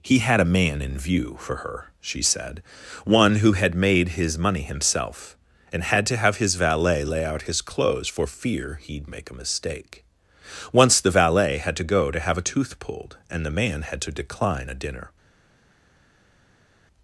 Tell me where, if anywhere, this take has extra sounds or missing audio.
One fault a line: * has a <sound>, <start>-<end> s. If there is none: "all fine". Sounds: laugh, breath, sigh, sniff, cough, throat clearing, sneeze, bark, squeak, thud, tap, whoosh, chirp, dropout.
all fine